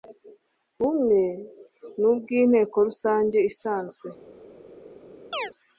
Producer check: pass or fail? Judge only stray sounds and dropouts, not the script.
fail